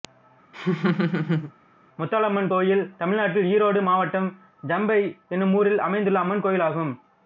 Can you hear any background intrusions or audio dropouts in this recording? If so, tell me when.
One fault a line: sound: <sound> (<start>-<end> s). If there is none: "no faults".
sound: laugh (0.5-1.5 s)